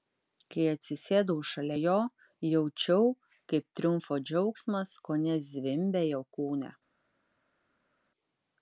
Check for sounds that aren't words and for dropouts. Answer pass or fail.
pass